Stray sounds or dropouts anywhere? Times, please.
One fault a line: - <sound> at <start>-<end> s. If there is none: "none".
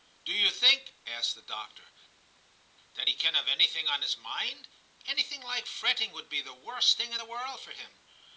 none